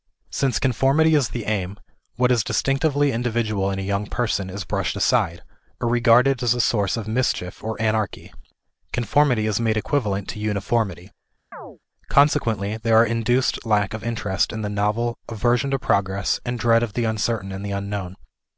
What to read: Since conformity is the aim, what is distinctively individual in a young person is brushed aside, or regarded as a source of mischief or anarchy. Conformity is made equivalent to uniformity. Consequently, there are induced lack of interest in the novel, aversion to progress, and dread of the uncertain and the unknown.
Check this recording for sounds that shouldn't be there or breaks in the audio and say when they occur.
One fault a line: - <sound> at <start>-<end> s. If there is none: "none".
- chirp at 11.5-11.8 s